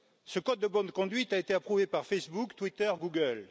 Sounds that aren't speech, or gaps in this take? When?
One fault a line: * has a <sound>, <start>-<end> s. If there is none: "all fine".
all fine